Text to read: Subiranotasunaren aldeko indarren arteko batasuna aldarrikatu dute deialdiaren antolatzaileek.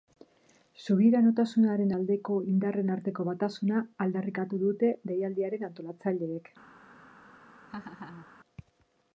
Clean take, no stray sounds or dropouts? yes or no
no